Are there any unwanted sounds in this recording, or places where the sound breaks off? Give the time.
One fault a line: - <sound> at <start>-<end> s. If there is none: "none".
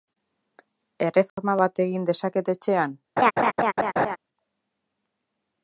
- dropout at 1.3-1.4 s
- laugh at 3.2-4.2 s